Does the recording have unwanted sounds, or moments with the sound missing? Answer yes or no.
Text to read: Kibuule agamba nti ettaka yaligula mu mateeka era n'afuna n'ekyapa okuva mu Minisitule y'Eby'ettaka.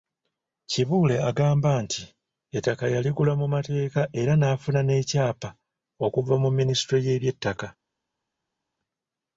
no